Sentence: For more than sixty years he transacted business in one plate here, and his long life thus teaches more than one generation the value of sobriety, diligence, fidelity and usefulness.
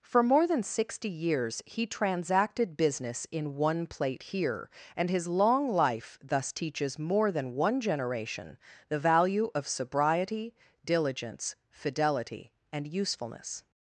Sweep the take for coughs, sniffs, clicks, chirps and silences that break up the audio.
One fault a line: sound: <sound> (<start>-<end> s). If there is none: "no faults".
no faults